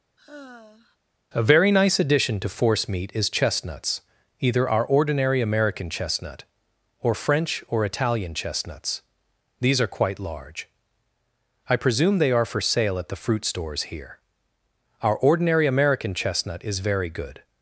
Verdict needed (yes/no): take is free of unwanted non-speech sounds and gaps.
no